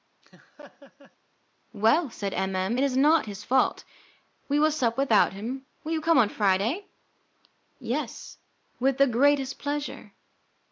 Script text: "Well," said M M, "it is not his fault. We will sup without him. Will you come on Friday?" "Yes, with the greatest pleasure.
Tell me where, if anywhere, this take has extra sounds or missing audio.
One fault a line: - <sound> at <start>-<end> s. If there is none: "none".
- laugh at 0.2-1.2 s